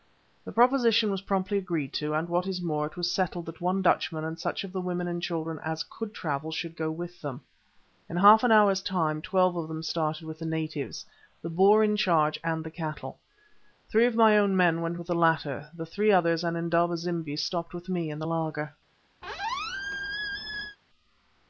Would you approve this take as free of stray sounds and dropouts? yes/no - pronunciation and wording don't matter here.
no